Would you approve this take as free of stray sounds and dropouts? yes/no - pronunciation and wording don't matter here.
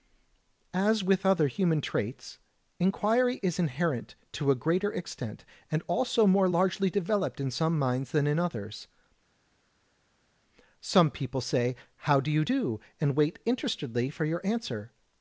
yes